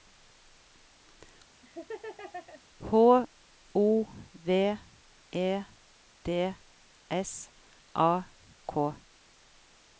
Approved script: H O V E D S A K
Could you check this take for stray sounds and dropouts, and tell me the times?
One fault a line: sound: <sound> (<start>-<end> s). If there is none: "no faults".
sound: laugh (1.6-2.6 s)